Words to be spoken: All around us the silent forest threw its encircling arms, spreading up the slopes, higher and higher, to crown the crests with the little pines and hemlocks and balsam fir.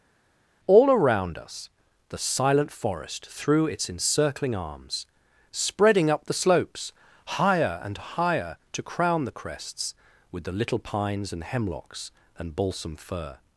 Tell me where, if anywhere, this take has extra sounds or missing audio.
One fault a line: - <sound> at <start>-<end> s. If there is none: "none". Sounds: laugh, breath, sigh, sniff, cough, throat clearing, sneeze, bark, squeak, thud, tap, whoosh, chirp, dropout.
none